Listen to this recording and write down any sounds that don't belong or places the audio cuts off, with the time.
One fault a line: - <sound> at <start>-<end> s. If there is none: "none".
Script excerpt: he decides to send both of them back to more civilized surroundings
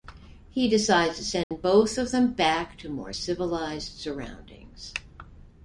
- dropout at 1.4-1.5 s